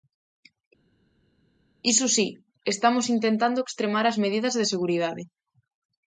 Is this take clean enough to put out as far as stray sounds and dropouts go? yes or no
yes